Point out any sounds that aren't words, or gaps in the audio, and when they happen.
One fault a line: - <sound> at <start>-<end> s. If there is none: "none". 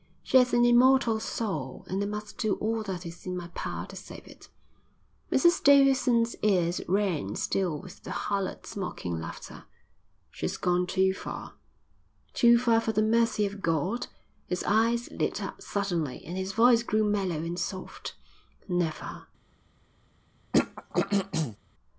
- throat clearing at 20.5-21.6 s